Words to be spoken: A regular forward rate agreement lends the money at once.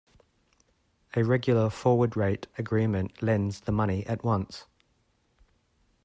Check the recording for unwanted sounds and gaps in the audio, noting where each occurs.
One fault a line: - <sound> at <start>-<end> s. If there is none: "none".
none